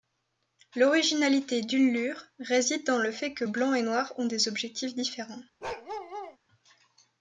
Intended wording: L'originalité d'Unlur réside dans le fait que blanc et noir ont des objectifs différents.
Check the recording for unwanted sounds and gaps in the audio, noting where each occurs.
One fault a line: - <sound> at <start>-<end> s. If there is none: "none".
- bark at 5.6-6.4 s